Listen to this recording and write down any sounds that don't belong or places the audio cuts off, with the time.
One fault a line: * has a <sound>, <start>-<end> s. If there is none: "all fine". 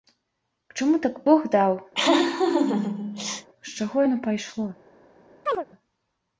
* has a laugh, 1.9-3.5 s
* has a chirp, 5.5-5.7 s